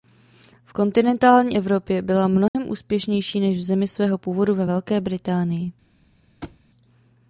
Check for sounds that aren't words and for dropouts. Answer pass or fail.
fail